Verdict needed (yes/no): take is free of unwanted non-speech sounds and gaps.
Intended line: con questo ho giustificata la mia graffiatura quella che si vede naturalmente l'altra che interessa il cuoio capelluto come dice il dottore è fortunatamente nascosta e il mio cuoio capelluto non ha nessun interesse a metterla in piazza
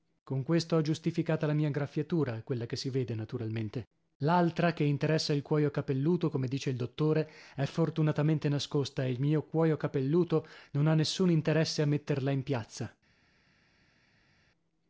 yes